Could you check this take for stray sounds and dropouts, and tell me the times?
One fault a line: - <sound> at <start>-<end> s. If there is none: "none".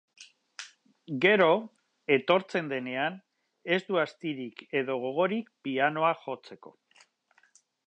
none